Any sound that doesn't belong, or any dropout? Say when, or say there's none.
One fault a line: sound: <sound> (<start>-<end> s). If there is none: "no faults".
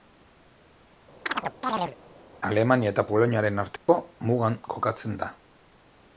sound: chirp (1.3-2.0 s)
sound: dropout (3.8-3.9 s)